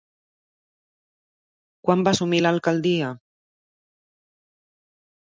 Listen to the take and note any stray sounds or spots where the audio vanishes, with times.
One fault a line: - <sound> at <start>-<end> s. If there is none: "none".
none